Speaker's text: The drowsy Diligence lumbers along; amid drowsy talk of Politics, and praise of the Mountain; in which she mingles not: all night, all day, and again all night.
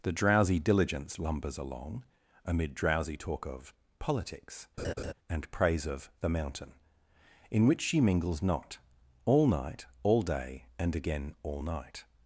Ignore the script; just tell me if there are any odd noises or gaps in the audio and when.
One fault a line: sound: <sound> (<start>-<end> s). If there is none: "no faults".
sound: laugh (4.8-5.1 s)